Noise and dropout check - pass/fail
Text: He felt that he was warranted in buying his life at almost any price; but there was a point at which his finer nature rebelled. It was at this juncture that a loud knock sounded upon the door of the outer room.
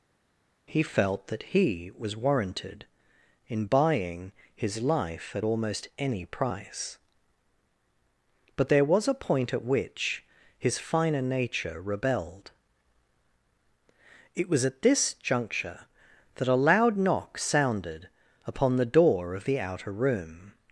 pass